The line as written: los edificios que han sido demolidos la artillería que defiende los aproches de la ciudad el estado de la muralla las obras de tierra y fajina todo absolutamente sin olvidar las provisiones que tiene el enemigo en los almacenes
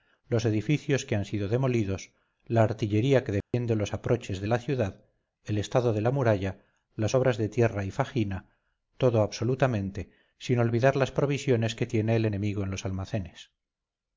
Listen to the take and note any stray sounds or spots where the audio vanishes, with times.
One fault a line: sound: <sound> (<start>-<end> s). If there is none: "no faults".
sound: dropout (3.4-3.5 s)